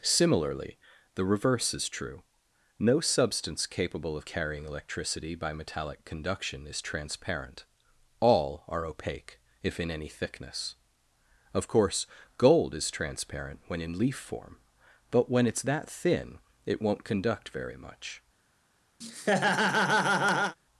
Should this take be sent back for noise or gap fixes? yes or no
yes